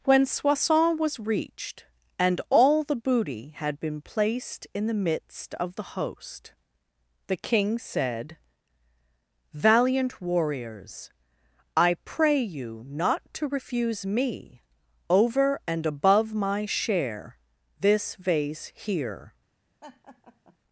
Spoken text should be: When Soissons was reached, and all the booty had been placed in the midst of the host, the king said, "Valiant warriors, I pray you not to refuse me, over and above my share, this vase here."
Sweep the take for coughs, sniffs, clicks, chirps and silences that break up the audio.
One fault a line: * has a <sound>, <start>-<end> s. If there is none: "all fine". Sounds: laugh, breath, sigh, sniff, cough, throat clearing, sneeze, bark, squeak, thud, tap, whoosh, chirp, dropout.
* has a laugh, 19.8-20.6 s